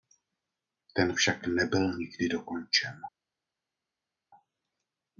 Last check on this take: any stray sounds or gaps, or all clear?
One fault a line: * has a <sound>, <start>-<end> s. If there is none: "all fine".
all fine